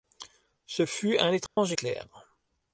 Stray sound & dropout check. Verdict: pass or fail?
fail